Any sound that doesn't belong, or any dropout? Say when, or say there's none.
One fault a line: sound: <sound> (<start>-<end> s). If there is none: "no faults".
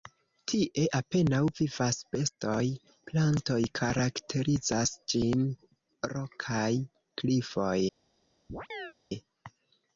sound: chirp (8.5-8.9 s)